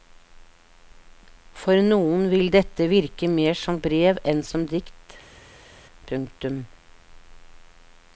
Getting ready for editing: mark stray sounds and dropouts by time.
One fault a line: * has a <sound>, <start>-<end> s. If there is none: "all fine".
all fine